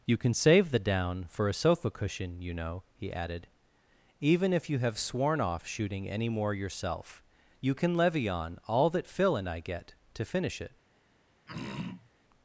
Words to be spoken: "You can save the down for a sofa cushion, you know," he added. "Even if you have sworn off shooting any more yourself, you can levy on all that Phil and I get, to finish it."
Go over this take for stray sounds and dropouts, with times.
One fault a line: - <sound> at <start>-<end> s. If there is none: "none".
- throat clearing at 11.5-12.1 s